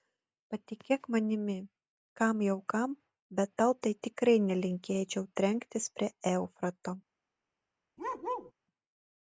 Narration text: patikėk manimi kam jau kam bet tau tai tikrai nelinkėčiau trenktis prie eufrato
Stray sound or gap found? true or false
true